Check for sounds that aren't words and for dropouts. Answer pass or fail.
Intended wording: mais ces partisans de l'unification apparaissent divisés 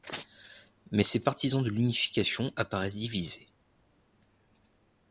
pass